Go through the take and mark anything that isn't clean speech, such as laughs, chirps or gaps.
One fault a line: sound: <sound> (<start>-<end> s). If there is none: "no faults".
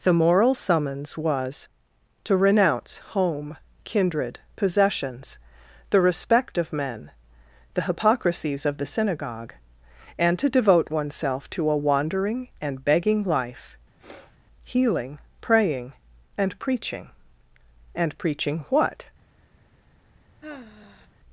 sound: sniff (14.0-14.4 s)
sound: sigh (20.4-21.1 s)